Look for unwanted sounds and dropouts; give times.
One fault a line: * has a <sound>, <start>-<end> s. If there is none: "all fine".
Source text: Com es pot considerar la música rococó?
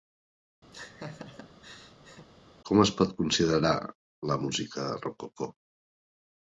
* has a laugh, 0.7-2.3 s